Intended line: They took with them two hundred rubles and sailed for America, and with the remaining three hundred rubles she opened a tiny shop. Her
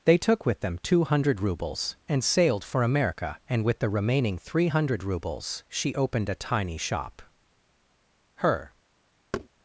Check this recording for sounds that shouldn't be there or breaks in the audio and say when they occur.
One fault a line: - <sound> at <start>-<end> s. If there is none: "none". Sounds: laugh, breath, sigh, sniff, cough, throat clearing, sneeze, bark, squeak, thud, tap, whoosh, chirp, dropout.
- thud at 9.3-9.5 s